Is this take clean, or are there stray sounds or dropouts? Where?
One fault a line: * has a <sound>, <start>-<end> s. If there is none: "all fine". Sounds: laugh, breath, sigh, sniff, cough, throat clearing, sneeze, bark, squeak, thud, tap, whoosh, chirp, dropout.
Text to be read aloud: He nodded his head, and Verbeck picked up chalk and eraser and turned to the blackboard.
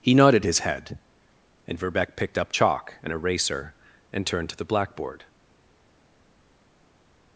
all fine